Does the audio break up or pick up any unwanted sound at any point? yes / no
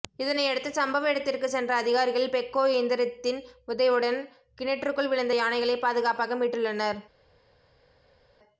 no